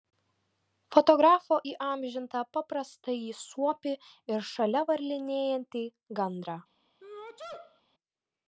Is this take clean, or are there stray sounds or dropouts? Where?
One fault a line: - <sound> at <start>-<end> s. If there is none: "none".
- sneeze at 7.0-7.8 s